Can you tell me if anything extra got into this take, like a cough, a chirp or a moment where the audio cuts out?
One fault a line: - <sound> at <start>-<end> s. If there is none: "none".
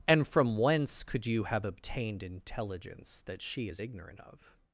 none